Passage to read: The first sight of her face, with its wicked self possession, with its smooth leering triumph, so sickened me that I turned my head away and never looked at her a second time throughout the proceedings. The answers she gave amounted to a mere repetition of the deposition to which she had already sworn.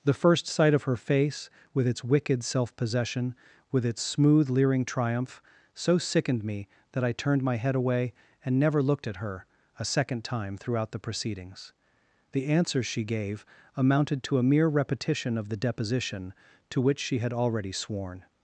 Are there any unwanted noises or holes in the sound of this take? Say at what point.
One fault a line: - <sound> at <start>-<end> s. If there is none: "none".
none